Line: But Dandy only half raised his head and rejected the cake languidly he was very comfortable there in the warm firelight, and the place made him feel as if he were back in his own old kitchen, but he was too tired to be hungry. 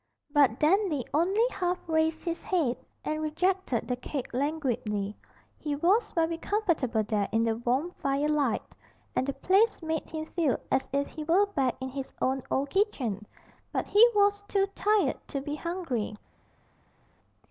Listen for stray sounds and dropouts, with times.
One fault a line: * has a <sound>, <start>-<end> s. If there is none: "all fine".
all fine